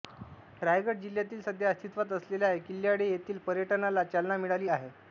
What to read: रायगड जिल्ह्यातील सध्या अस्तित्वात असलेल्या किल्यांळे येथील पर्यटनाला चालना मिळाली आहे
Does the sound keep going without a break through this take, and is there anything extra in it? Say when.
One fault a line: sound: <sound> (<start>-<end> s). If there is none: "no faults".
no faults